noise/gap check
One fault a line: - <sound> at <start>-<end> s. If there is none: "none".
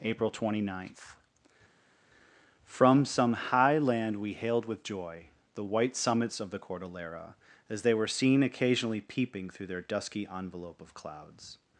none